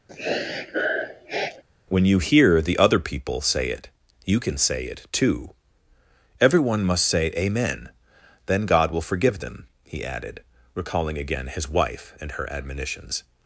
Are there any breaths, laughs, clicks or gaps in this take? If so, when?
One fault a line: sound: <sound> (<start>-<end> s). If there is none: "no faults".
sound: sniff (0.1-1.6 s)